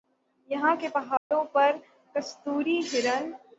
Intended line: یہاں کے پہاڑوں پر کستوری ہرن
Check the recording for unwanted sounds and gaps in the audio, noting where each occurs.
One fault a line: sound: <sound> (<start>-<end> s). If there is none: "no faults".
sound: dropout (1.2-1.3 s)